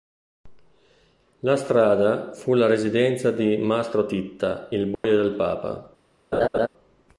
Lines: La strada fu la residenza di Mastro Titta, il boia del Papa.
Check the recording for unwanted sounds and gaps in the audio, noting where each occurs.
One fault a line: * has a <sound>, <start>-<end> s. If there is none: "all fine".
* has a dropout, 4.9-5.0 s
* has a laugh, 6.3-6.7 s